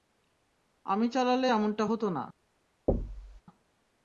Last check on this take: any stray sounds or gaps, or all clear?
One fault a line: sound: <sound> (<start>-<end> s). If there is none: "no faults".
sound: thud (2.9-3.4 s)